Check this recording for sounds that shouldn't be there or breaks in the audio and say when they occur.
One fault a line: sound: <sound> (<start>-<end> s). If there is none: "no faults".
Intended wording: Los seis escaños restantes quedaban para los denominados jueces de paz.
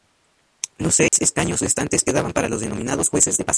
sound: dropout (1.1-1.1 s)